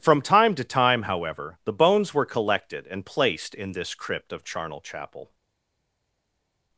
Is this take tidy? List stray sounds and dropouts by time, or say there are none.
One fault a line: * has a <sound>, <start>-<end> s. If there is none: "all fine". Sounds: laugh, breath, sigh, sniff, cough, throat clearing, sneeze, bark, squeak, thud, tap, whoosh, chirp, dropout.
all fine